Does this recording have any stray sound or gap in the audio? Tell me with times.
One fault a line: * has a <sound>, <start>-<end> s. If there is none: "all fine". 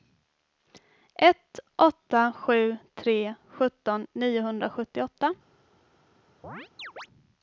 * has a chirp, 6.4-7.1 s